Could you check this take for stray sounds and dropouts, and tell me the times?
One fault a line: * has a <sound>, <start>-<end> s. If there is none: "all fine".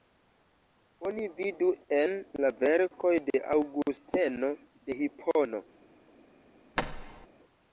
* has a thud, 6.8-7.3 s